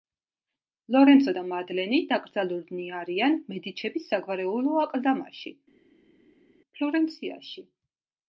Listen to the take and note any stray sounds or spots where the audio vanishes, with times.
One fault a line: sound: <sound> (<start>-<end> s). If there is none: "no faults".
no faults